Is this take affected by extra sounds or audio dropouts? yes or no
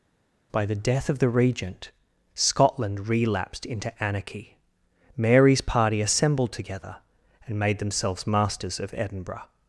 no